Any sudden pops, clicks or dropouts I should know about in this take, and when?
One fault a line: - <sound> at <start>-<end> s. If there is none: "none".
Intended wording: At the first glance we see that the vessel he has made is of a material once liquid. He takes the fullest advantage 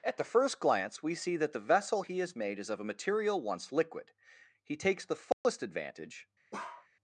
- dropout at 5.3-5.4 s
- bark at 6.5-6.9 s